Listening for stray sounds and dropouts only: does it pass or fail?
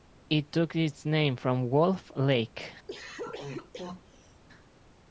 fail